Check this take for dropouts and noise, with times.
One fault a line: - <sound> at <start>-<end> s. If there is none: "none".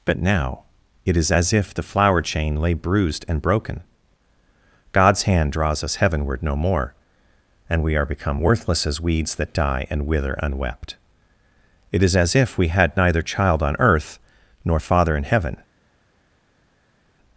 none